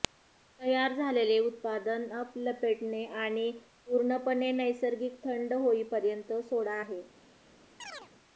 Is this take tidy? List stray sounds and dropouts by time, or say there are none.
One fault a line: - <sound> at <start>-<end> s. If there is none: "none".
- chirp at 7.8-8.1 s